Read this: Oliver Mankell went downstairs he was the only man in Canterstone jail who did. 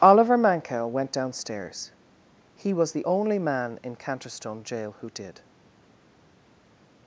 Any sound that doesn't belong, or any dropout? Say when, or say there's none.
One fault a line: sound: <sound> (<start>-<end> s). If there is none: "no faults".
no faults